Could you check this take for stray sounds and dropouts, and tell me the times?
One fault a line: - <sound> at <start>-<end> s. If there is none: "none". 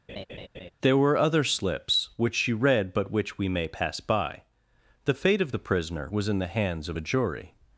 - laugh at 0.1-0.7 s